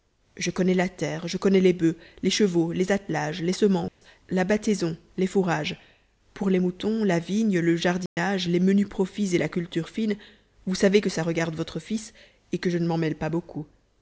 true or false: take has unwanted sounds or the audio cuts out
true